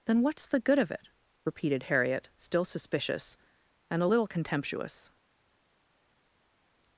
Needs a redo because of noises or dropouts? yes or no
no